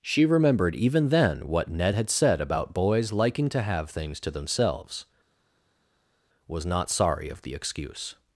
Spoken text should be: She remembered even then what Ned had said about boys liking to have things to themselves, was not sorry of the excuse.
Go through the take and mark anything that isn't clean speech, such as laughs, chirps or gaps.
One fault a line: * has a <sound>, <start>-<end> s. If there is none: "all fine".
all fine